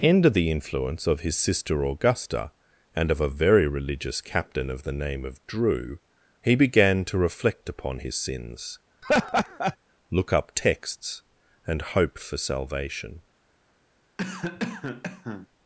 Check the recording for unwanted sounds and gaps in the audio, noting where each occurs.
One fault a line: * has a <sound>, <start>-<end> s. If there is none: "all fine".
* has a laugh, 9.0-9.8 s
* has a cough, 14.2-15.5 s